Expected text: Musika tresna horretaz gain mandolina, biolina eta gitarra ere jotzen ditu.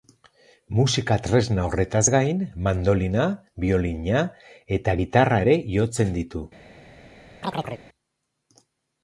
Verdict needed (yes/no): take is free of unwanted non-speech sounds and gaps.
no